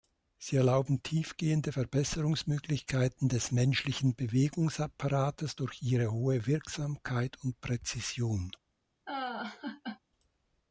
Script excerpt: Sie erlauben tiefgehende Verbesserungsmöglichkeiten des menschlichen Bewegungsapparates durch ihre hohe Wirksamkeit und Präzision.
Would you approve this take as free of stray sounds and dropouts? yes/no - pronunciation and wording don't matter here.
no